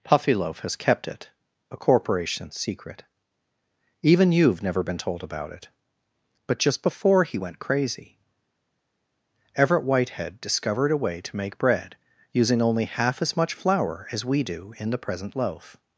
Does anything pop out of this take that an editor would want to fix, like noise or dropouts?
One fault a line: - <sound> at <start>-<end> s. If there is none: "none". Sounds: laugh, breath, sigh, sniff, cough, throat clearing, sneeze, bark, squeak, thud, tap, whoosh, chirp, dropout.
none